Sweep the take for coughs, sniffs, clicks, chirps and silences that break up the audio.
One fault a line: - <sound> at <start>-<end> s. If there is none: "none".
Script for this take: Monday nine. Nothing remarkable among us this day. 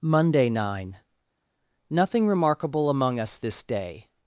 none